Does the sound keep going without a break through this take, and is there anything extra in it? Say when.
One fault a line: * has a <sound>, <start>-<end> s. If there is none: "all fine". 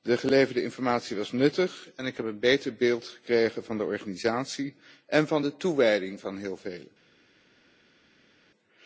all fine